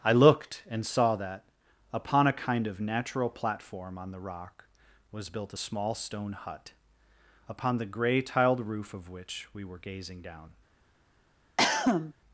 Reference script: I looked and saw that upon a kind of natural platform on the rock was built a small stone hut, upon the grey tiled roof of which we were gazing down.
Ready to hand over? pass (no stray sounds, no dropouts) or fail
fail